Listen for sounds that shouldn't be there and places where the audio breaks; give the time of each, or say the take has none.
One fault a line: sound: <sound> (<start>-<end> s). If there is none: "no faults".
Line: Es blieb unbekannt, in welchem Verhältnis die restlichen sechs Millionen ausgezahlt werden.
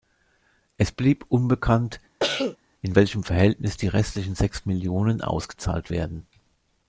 sound: cough (2.2-2.6 s)